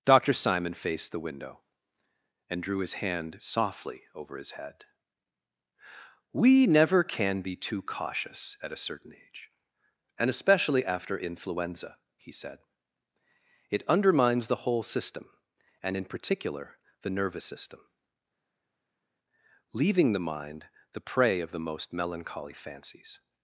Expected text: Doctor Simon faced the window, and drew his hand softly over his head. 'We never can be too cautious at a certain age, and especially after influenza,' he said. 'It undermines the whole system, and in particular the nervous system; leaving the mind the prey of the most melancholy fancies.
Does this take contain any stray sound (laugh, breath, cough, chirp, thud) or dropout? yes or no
no